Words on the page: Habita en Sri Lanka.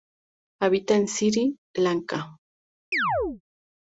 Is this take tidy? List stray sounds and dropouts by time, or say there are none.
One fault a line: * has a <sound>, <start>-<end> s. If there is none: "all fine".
* has a chirp, 2.9-3.4 s